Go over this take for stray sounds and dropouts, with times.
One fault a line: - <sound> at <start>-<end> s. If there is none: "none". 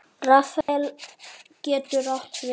- dropout at 0.6-0.7 s